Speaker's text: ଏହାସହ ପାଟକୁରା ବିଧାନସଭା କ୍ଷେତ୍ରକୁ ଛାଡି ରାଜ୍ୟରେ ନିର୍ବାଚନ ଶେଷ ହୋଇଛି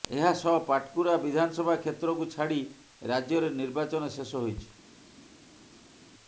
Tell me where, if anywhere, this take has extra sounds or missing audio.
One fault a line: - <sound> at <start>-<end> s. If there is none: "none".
none